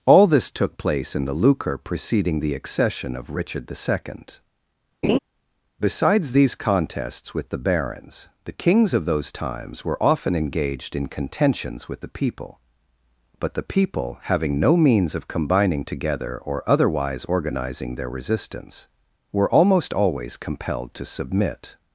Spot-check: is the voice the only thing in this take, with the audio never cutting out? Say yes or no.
no